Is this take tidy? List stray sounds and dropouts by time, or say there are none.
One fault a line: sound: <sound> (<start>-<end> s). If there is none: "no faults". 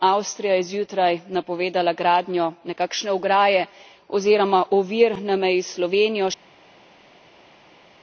no faults